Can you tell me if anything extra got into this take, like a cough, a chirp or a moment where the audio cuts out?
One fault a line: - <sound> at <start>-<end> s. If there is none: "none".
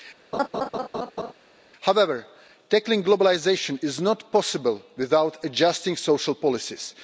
- laugh at 0.3-1.3 s